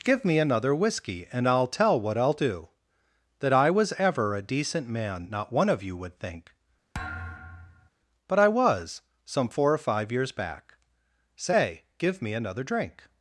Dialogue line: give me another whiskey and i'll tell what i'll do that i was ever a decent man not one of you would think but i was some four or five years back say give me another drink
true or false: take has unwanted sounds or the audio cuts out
true